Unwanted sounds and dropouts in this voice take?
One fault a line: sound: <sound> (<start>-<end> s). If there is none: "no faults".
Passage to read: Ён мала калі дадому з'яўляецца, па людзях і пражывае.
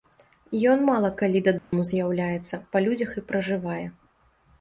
sound: dropout (1.6-1.7 s)